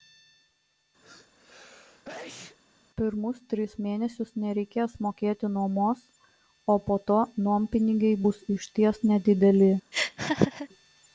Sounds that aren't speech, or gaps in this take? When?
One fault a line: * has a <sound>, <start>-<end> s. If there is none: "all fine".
* has a sneeze, 1.0-2.6 s
* has a laugh, 9.9-10.7 s